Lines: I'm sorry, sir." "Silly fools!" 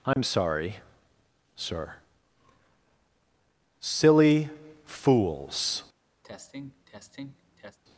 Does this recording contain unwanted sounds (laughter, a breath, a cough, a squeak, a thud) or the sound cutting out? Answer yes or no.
yes